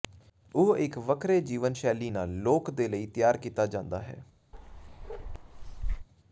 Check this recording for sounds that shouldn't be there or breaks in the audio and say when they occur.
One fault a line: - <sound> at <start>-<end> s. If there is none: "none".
- bark at 4.5-6.1 s